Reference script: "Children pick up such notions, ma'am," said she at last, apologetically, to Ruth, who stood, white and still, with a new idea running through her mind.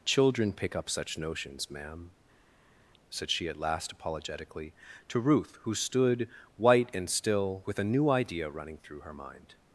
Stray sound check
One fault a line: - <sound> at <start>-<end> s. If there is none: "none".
none